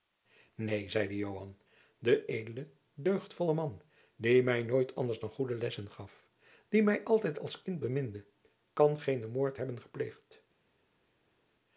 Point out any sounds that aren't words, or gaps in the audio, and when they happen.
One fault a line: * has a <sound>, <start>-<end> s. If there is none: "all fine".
all fine